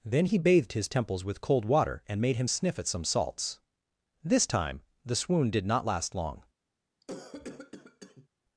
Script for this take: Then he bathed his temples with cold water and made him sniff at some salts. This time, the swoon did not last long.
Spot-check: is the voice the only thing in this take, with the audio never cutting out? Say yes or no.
no